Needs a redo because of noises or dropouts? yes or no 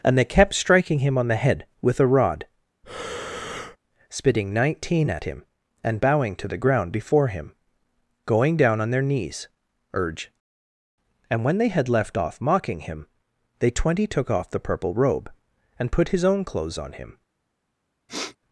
yes